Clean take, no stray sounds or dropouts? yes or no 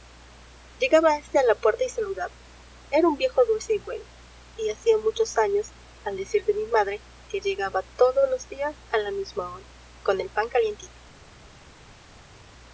yes